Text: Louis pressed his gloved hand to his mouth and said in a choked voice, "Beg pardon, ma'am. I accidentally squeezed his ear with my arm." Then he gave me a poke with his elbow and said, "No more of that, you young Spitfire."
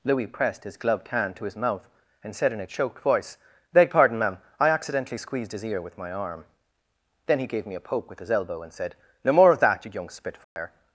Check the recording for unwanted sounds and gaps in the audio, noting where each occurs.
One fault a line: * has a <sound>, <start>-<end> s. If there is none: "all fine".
* has a dropout, 10.4-10.6 s